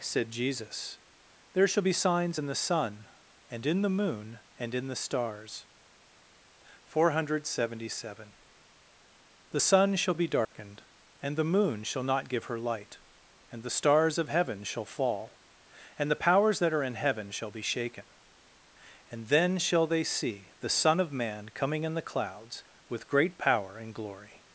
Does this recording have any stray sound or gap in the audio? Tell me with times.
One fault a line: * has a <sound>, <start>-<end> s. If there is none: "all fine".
* has a dropout, 10.4-10.5 s